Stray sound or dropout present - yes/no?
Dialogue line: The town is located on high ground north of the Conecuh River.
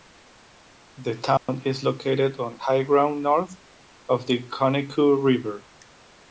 yes